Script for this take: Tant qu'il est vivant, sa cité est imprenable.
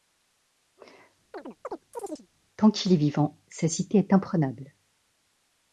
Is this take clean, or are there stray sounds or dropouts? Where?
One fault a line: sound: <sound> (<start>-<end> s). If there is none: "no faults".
sound: chirp (1.3-2.3 s)